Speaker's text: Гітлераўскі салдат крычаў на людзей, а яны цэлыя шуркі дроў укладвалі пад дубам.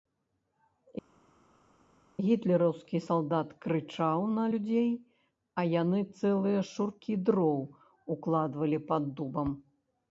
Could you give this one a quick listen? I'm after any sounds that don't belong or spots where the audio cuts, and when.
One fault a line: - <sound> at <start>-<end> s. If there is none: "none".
none